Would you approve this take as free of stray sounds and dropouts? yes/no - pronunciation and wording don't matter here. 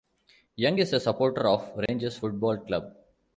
no